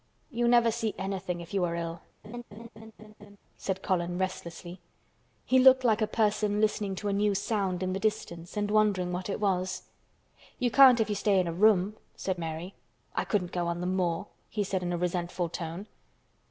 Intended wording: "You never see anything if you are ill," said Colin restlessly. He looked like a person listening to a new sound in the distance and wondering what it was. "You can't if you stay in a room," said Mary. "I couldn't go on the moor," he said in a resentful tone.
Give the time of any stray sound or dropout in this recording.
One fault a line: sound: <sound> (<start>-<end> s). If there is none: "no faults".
sound: laugh (2.2-3.4 s)